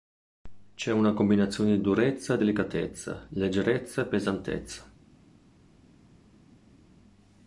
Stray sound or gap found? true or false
false